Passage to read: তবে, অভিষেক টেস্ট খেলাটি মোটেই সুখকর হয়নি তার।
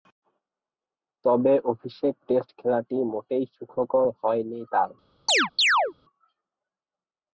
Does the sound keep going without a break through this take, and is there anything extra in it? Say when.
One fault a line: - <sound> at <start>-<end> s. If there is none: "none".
- chirp at 5.3-5.9 s